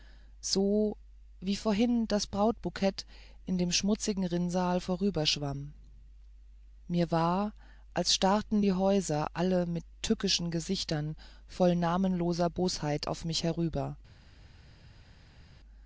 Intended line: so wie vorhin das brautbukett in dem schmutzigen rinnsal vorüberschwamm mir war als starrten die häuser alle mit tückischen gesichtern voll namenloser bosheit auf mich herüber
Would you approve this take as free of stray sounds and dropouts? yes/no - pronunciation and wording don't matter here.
yes